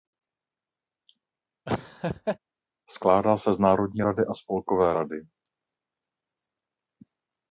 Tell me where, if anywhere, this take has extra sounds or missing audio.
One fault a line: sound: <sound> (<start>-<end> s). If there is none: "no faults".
sound: laugh (1.7-2.4 s)